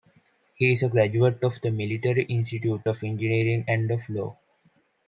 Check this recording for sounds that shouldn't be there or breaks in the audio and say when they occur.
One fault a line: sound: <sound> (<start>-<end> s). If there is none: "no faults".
no faults